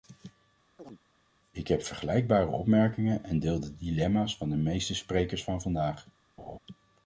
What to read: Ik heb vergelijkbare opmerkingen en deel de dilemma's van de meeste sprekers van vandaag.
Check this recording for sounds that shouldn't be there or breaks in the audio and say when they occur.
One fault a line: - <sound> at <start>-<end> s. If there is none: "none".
- chirp at 0.8-1.0 s
- laugh at 6.4-6.6 s